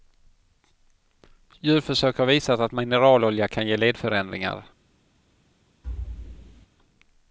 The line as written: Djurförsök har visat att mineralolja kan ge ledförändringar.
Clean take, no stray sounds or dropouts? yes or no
no